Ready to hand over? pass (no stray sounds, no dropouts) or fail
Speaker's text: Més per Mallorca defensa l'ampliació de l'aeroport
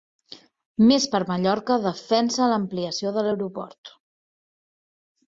pass